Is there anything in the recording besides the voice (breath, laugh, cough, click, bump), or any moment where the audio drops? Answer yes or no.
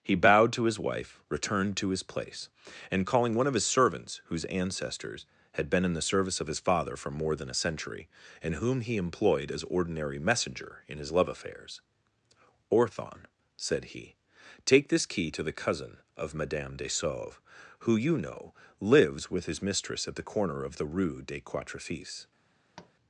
yes